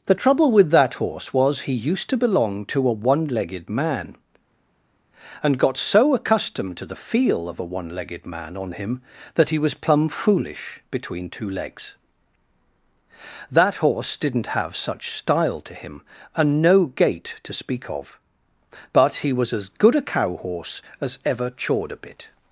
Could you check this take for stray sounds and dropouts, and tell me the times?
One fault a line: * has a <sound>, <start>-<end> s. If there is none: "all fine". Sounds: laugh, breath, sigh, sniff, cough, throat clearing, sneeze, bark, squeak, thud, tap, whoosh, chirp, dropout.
all fine